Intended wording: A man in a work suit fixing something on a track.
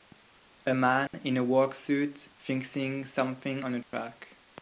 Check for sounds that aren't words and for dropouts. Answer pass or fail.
fail